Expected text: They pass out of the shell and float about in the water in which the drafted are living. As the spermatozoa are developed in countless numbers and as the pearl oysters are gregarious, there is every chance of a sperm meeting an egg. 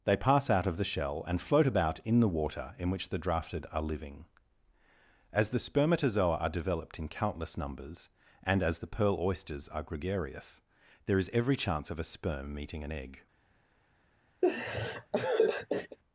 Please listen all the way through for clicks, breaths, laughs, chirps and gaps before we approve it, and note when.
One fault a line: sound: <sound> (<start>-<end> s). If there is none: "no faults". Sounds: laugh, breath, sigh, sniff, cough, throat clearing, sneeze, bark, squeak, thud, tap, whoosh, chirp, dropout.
sound: laugh (14.4-16.0 s)